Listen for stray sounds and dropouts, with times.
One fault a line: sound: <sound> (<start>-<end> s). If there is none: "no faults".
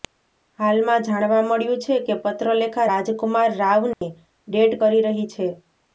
sound: dropout (3.9-4.0 s)